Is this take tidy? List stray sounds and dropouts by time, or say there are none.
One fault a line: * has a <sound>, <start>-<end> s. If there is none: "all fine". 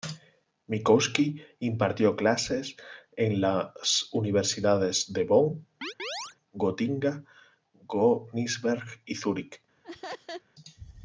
* has a chirp, 5.8-6.4 s
* has a laugh, 9.8-10.4 s